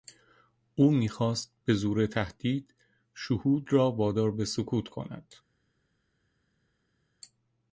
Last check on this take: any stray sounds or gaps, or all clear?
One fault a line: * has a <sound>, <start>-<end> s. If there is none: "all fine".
all fine